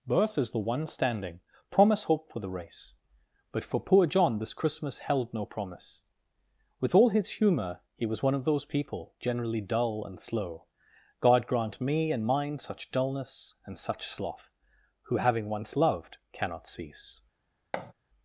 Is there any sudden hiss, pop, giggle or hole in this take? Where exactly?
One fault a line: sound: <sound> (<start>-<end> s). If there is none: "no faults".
sound: thud (17.7-17.9 s)